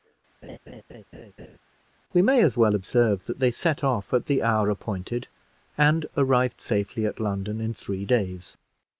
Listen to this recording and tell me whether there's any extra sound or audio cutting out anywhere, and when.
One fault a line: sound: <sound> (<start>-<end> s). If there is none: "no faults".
sound: laugh (0.4-1.6 s)